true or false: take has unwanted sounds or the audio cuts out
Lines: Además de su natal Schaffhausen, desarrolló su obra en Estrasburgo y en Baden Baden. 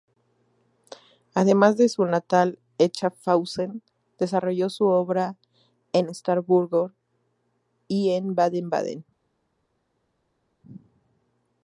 false